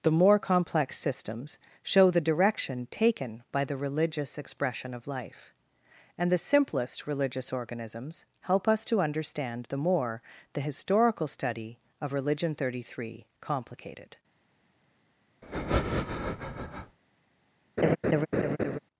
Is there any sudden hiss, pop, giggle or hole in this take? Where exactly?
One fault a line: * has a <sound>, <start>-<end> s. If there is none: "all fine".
* has a breath, 15.4-17.0 s
* has a laugh, 17.8-18.8 s